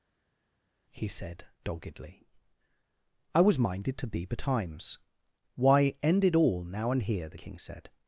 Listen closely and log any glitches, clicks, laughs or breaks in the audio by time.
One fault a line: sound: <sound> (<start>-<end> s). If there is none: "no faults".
no faults